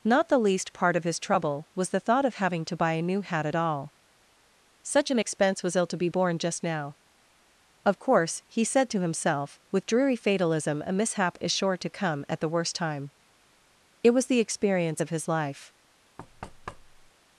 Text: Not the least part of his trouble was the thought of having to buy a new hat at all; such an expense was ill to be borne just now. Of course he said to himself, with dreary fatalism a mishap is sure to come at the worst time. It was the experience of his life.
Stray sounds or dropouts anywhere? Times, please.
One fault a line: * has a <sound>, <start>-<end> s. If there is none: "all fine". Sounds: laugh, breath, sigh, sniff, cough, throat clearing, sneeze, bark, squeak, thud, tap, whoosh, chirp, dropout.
* has a thud, 16.2-17.1 s